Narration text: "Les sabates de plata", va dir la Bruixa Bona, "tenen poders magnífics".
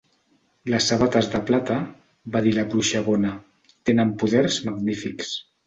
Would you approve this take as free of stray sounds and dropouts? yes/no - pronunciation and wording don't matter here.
yes